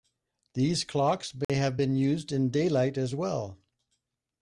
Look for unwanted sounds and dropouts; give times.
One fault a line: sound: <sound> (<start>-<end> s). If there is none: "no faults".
sound: dropout (1.4-1.5 s)